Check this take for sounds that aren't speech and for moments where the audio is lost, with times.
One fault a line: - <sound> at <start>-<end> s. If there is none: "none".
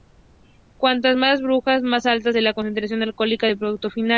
none